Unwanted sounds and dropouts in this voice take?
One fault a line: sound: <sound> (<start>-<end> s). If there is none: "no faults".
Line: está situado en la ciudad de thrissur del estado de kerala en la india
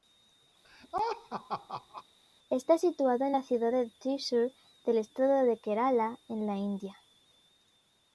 sound: laugh (0.6-2.0 s)